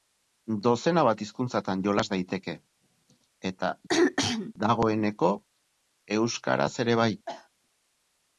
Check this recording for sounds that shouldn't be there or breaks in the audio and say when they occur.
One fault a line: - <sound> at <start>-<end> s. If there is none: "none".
- throat clearing at 3.9-4.5 s
- cough at 7.3-7.5 s